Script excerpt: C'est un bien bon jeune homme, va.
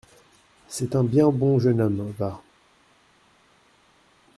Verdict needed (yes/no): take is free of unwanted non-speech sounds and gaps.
yes